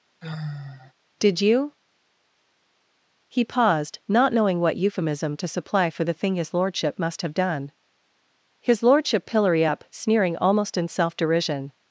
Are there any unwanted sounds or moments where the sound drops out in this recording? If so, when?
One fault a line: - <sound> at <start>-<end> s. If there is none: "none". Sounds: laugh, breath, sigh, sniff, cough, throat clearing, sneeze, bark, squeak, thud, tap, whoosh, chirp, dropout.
- sigh at 0.2-0.9 s